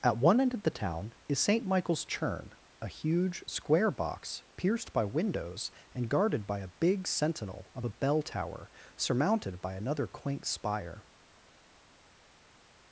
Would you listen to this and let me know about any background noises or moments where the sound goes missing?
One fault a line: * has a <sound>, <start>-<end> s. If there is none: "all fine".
all fine